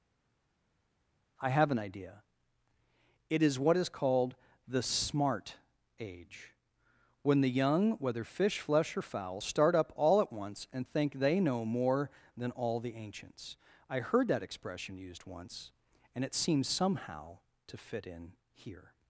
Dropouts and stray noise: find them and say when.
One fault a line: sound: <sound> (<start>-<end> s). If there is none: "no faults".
no faults